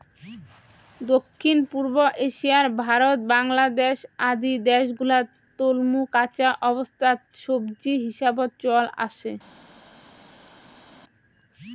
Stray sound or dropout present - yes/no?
no